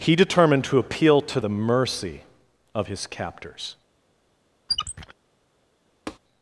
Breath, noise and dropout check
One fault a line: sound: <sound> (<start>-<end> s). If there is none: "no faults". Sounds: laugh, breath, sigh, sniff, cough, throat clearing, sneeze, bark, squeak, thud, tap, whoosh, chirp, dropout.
sound: squeak (4.7-5.1 s)
sound: tap (6.1-6.2 s)